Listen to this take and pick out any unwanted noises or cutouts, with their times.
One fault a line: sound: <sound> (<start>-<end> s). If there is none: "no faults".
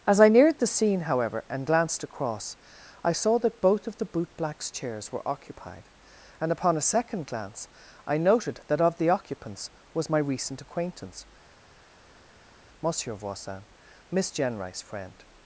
no faults